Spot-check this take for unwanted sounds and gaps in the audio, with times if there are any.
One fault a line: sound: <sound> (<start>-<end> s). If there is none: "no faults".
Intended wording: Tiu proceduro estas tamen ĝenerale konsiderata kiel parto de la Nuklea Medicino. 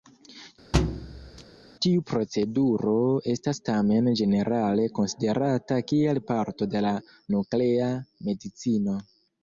sound: thud (0.7-1.4 s)